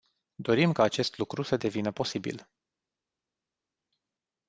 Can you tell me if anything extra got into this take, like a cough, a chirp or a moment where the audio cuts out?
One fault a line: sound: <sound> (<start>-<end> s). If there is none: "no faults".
no faults